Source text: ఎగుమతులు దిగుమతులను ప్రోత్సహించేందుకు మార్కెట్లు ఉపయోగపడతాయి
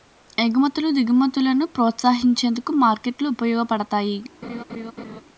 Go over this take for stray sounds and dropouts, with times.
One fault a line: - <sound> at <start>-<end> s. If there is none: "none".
- laugh at 4.4-5.2 s